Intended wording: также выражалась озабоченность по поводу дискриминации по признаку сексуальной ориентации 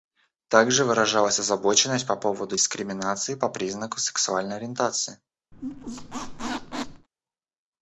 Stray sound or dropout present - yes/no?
yes